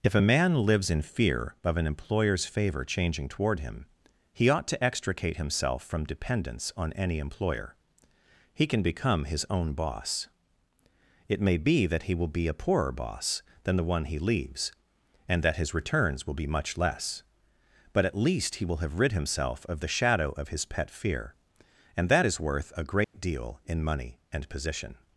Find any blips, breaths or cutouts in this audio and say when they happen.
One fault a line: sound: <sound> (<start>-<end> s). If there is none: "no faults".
sound: dropout (23.0-23.1 s)